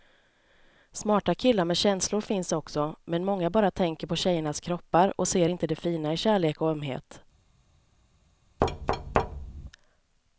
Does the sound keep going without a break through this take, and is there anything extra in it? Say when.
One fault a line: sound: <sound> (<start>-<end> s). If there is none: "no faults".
sound: thud (8.6-9.7 s)